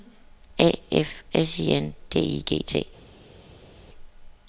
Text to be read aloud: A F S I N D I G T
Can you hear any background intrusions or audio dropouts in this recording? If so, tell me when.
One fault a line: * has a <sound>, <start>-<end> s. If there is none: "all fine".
all fine